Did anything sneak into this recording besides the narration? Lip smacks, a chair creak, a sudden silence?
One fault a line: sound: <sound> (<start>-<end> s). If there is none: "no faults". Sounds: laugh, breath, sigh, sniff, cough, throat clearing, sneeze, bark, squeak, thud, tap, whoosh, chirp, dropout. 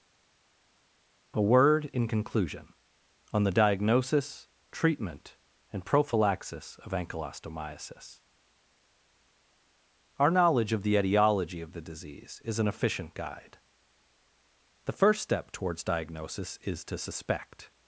no faults